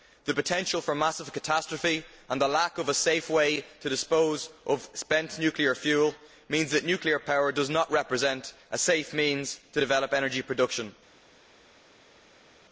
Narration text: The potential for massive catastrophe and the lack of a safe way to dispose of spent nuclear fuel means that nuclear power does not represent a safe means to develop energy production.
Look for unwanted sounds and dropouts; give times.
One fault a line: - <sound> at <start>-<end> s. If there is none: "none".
none